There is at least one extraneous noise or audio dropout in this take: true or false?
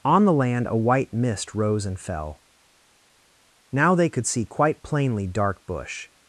false